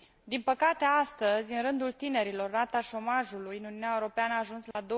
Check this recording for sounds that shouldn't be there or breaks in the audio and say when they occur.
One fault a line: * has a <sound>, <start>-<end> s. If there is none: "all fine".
* has a dropout, 4.7-4.7 s